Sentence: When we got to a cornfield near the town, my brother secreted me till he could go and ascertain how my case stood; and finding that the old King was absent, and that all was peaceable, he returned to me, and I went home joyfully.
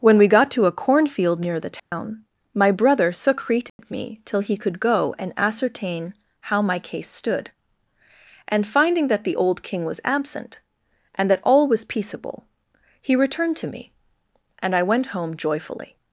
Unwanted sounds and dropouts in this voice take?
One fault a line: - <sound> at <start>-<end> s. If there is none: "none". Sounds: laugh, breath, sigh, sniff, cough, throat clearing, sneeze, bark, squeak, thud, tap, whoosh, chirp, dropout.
- dropout at 1.8-1.9 s
- dropout at 3.7-3.8 s